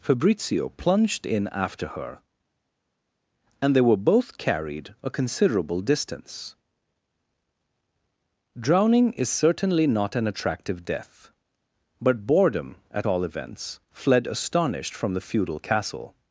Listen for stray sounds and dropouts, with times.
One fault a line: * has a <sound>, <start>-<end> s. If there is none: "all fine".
all fine